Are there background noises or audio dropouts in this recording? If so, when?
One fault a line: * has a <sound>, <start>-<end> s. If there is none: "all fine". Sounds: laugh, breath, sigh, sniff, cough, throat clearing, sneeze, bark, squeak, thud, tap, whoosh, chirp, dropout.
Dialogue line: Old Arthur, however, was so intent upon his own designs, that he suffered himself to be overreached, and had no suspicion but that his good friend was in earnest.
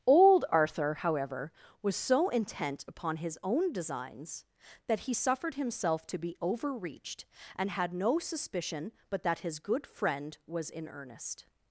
all fine